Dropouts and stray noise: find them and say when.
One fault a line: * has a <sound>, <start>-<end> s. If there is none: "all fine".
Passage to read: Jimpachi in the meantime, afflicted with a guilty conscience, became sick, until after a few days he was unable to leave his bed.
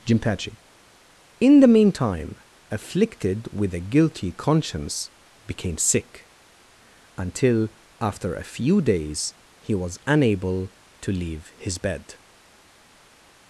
all fine